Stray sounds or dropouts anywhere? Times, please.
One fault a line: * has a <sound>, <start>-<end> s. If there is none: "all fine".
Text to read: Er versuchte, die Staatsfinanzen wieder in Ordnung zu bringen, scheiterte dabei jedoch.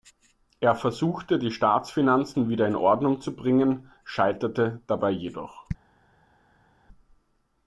all fine